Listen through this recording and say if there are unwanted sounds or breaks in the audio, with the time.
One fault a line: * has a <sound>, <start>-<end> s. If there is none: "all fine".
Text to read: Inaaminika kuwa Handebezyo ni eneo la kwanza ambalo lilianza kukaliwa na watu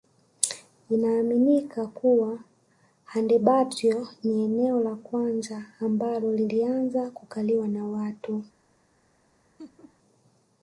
* has a laugh, 9.6-10.0 s